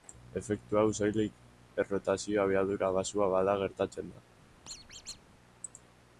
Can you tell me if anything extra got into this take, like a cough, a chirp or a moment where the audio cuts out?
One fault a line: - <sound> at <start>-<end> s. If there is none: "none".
- squeak at 4.7-5.2 s